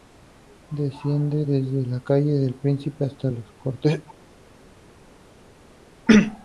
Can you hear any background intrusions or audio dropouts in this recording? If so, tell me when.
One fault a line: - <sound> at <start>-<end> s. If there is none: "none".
none